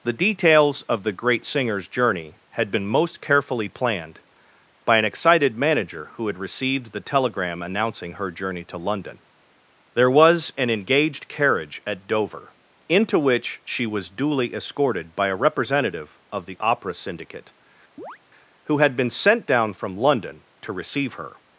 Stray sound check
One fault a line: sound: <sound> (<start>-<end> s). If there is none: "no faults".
sound: chirp (18.0-18.2 s)